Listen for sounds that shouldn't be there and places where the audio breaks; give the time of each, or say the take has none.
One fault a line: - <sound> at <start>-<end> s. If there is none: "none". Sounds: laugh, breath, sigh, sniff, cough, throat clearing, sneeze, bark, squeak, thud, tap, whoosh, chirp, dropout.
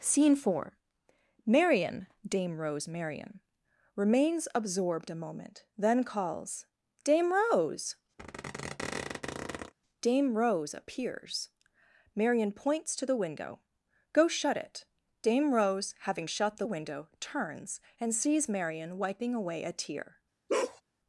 - squeak at 8.2-9.7 s
- bark at 20.5-20.8 s